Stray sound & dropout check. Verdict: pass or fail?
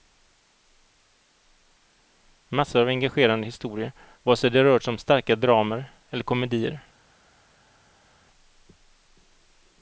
pass